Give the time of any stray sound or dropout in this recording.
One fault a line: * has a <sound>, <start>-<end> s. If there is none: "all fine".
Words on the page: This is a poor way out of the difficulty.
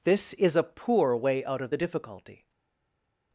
all fine